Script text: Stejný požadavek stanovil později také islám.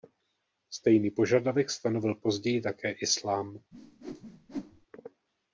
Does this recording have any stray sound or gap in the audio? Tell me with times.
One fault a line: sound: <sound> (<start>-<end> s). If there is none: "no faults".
sound: whoosh (3.7-4.9 s)